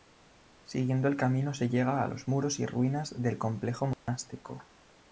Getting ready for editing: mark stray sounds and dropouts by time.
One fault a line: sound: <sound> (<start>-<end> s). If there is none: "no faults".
sound: dropout (3.9-4.1 s)